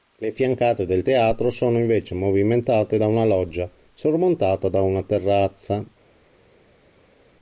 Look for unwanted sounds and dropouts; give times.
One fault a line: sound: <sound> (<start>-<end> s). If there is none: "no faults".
no faults